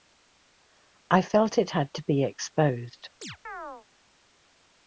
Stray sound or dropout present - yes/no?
yes